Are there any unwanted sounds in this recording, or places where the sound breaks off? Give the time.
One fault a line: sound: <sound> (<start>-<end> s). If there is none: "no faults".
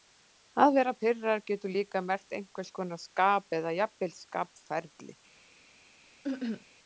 sound: cough (6.2-6.7 s)